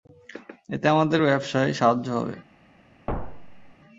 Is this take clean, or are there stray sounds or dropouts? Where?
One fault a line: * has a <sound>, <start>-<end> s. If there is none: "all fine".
* has a thud, 3.1-3.7 s